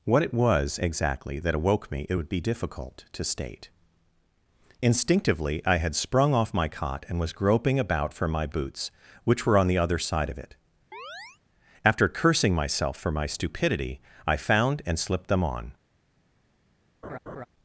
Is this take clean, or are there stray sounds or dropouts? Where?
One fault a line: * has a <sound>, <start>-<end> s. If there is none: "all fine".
* has a chirp, 10.9-11.4 s
* has a laugh, 17.0-17.5 s